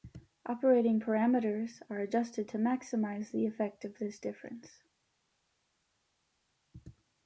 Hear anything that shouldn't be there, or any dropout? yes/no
no